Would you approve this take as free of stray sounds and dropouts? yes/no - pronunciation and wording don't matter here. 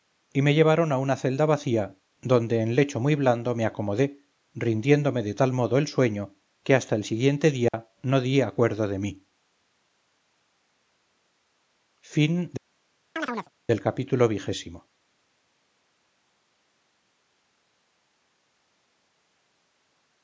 no